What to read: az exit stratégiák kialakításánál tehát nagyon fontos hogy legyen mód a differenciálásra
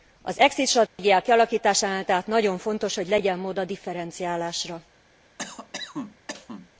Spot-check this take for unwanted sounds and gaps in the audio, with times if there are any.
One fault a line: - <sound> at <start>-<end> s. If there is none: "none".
- dropout at 0.9-1.0 s
- cough at 5.4-6.7 s